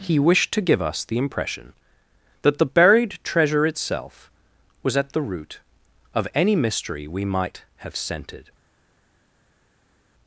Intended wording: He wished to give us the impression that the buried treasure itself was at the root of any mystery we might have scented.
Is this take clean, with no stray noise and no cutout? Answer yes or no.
yes